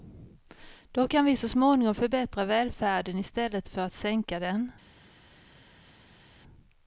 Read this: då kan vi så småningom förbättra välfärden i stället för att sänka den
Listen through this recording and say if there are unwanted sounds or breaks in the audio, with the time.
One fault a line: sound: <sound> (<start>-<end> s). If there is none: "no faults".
no faults